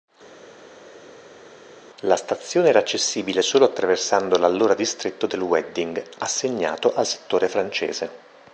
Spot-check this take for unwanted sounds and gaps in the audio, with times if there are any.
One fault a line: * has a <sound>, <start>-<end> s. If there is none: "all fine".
all fine